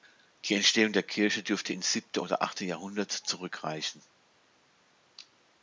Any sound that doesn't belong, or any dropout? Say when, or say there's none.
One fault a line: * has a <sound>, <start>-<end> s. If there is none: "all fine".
all fine